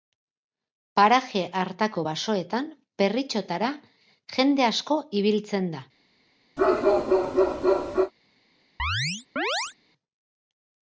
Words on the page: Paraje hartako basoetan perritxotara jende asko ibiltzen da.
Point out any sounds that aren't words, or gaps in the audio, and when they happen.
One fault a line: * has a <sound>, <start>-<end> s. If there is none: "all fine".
* has a bark, 6.6-8.1 s
* has a chirp, 8.8-9.7 s